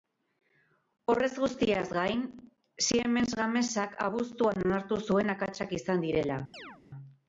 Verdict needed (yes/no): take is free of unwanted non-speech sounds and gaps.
no